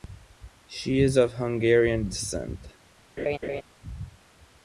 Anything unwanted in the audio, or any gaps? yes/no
yes